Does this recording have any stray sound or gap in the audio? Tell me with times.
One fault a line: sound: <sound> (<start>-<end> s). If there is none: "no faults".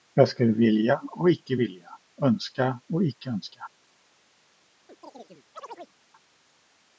sound: chirp (4.9-5.9 s)